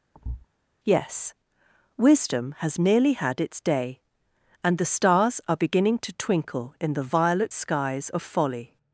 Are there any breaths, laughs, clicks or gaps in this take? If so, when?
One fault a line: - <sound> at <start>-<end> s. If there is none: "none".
- thud at 0.1-0.5 s